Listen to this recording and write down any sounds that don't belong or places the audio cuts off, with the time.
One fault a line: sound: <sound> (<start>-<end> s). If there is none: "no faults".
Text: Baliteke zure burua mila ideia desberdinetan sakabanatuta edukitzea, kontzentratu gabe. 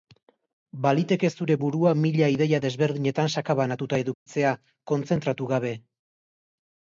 sound: dropout (4.1-4.3 s)